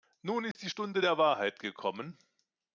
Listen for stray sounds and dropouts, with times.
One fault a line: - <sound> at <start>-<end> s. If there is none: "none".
- dropout at 0.5-0.5 s